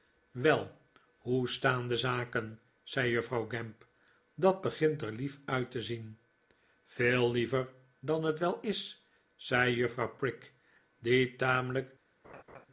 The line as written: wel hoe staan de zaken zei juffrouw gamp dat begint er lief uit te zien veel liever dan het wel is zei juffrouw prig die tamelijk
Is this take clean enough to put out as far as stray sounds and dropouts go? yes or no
no